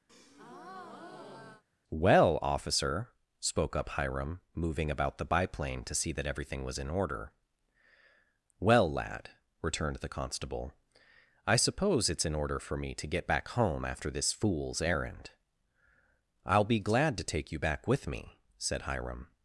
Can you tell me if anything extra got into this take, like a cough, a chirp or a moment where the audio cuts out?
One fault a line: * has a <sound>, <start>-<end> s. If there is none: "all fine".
* has a breath, 0.1-1.6 s